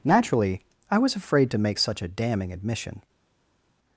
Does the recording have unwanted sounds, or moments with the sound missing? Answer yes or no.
no